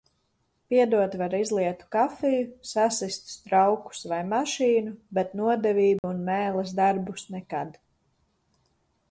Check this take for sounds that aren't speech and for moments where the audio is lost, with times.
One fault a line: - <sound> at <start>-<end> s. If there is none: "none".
- dropout at 6.0-6.0 s